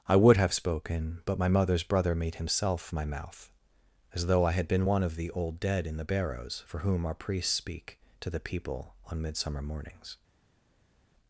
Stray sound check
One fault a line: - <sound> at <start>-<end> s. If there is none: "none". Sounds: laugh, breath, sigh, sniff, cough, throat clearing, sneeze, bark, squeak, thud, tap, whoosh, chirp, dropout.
none